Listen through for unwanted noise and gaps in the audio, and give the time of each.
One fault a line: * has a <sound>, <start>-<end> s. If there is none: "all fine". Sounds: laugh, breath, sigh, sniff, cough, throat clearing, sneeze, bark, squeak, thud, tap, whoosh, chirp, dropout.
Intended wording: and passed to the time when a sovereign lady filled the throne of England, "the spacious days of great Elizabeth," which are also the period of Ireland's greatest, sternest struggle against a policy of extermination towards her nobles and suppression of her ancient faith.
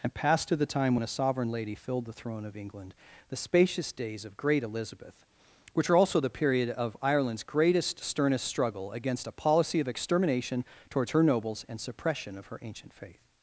all fine